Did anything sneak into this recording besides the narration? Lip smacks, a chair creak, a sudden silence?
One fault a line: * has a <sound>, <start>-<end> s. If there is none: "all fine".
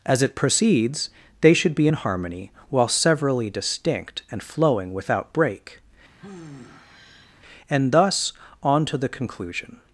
* has a sigh, 6.2-7.4 s